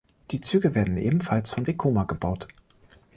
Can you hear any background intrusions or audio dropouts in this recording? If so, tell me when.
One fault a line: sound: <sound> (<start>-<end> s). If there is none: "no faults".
no faults